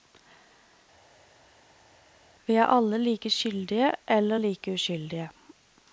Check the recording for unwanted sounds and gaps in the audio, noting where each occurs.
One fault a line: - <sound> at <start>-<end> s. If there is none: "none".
none